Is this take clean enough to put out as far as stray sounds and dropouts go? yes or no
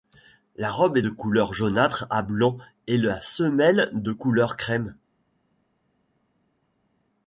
yes